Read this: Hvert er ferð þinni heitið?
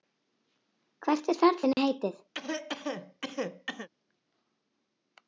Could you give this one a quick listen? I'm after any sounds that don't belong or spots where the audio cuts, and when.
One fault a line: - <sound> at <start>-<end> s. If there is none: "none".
- dropout at 1.7-1.8 s
- cough at 2.3-3.9 s